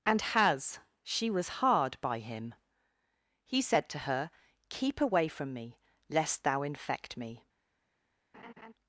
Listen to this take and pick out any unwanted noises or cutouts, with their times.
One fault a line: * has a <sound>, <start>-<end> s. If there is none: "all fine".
* has a laugh, 8.3-8.7 s